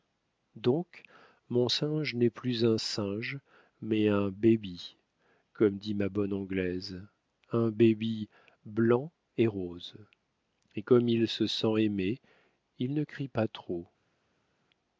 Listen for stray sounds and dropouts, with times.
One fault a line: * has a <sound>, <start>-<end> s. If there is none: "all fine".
all fine